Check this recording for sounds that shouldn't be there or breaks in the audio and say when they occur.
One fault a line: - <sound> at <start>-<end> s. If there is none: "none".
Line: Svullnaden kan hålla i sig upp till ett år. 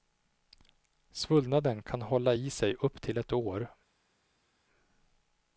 none